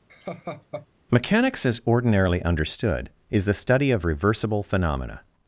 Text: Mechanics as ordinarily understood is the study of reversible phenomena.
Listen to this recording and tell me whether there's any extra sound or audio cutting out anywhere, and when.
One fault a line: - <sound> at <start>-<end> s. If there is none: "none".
- laugh at 0.1-0.9 s